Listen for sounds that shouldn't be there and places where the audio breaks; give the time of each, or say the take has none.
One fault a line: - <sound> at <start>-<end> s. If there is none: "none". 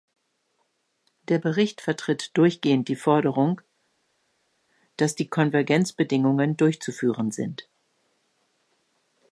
none